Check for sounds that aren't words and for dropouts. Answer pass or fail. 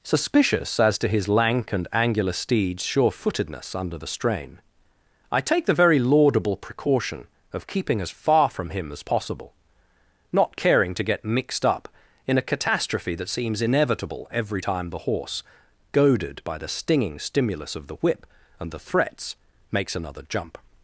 pass